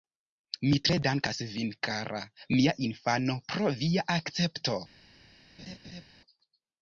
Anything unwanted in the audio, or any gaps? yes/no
yes